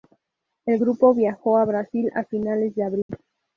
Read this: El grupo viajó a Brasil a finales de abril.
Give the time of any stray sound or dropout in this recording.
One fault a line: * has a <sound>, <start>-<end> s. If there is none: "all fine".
* has a dropout, 3.0-3.1 s